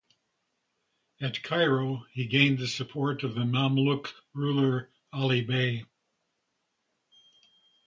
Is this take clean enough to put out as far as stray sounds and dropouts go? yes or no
yes